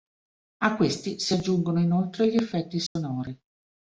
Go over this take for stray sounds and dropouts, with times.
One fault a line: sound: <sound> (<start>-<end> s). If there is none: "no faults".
sound: dropout (2.9-3.0 s)